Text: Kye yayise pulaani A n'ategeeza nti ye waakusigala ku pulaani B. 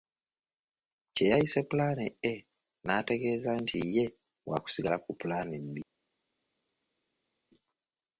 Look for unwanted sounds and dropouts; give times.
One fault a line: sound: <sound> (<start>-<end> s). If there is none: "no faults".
no faults